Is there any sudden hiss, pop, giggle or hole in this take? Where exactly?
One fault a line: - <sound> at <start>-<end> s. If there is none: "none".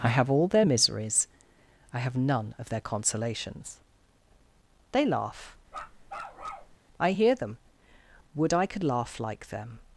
- bark at 5.7-6.8 s